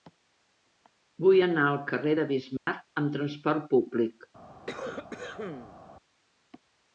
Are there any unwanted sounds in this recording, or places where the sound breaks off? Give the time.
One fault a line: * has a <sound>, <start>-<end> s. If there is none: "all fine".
* has a dropout, 2.6-2.7 s
* has a cough, 4.7-5.8 s